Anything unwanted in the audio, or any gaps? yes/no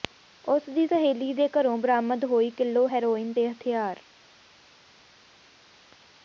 no